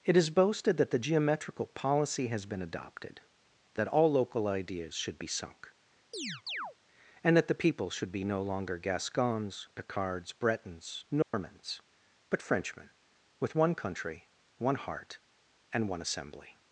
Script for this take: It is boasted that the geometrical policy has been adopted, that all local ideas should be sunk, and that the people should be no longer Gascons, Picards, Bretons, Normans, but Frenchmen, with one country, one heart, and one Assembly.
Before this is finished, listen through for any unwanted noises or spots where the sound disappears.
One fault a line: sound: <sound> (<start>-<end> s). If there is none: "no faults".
sound: chirp (6.1-6.8 s)
sound: dropout (11.2-11.3 s)